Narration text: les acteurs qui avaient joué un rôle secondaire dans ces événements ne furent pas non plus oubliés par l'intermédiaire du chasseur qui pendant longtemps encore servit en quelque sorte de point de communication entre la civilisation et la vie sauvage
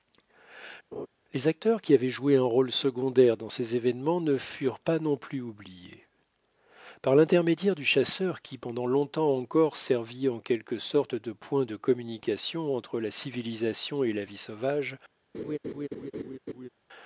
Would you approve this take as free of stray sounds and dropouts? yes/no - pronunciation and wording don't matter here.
no